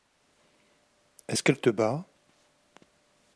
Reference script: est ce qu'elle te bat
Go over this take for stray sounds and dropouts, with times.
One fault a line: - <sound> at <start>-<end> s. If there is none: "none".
none